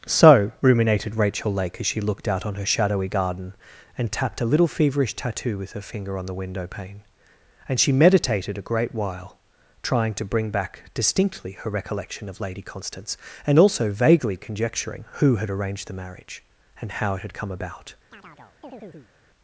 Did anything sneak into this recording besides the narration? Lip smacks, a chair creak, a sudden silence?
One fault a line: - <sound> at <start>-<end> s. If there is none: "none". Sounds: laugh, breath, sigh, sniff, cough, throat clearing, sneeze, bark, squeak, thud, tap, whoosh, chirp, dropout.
- chirp at 18.1-19.1 s